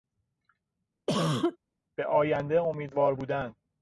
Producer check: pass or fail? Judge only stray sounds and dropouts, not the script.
fail